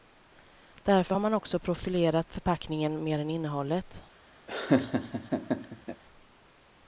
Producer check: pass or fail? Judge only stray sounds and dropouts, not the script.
fail